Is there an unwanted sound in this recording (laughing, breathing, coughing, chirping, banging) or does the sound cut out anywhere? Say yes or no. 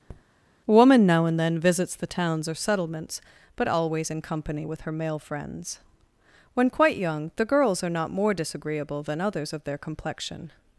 yes